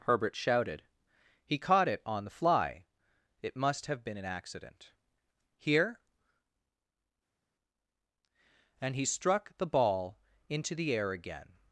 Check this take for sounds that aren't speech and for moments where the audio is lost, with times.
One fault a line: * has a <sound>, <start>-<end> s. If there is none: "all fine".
all fine